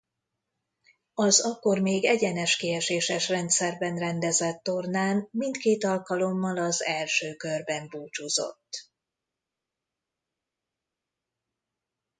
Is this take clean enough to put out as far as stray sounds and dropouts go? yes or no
yes